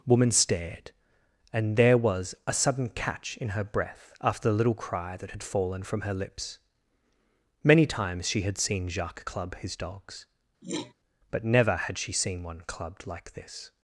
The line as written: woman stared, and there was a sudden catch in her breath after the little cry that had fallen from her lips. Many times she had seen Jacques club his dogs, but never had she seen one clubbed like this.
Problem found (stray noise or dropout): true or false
true